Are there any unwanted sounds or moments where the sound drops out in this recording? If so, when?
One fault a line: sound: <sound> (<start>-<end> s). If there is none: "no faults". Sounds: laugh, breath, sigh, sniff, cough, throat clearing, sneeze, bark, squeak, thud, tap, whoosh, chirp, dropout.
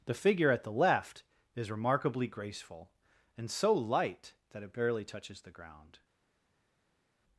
no faults